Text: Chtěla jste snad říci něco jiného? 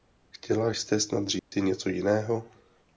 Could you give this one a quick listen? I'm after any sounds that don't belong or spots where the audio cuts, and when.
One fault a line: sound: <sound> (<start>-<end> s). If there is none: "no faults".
sound: dropout (1.4-1.5 s)